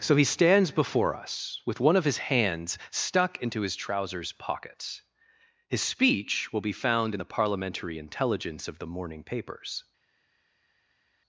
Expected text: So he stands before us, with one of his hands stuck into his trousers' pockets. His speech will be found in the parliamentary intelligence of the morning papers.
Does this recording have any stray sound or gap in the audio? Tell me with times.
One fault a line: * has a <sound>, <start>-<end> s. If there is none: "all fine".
all fine